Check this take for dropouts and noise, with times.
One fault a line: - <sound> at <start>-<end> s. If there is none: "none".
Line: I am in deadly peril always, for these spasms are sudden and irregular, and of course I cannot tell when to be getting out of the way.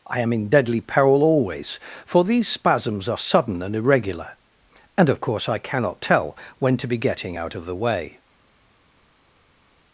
none